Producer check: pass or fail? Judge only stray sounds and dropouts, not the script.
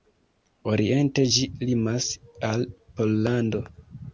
pass